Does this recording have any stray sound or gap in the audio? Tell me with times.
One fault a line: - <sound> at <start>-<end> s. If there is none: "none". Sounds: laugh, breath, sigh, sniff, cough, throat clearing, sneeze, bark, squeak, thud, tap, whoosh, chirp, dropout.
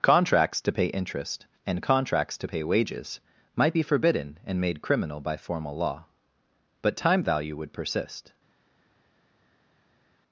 none